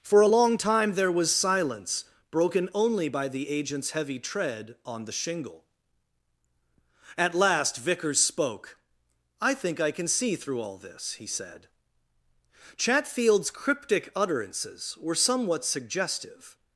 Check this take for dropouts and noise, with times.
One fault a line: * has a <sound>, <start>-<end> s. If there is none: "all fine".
all fine